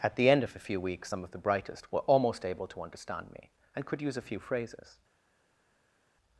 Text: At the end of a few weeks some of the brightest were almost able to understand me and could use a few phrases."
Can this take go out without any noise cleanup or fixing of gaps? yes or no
yes